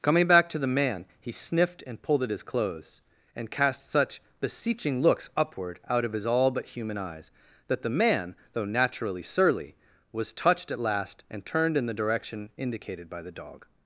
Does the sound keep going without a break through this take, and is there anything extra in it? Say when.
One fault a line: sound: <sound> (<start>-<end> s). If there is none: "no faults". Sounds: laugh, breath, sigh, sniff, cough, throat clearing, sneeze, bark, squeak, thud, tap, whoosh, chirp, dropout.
no faults